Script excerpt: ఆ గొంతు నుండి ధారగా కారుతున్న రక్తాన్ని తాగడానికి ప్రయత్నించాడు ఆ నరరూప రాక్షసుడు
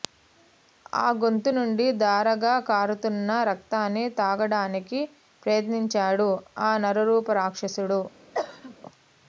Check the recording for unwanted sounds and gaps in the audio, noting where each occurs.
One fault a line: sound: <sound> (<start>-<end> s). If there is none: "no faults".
sound: cough (8.3-8.8 s)